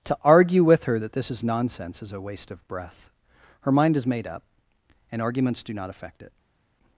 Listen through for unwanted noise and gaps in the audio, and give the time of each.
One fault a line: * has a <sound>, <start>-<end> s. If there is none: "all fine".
all fine